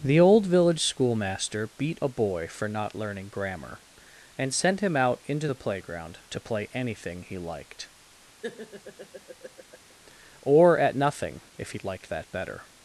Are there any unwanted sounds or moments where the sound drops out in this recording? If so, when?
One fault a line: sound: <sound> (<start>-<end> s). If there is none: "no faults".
sound: laugh (8.4-9.9 s)